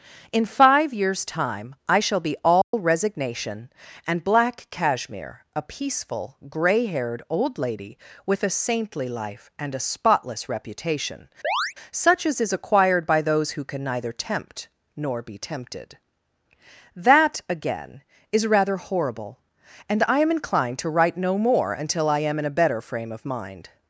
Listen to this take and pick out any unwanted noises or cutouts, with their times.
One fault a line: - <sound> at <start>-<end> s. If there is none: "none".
- dropout at 2.6-2.7 s
- chirp at 11.4-11.7 s